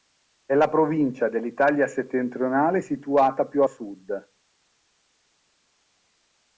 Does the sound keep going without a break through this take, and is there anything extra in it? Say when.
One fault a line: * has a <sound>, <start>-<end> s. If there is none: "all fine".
all fine